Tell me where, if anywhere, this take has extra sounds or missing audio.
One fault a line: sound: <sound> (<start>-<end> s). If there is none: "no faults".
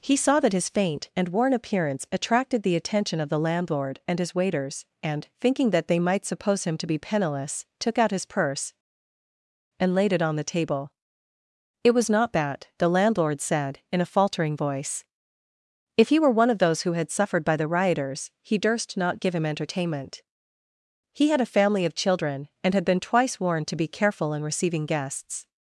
no faults